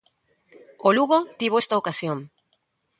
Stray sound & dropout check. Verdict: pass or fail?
pass